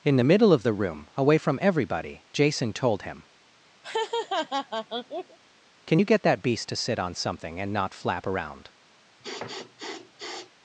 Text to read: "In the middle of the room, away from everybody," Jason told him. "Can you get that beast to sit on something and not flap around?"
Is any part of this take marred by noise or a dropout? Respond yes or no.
yes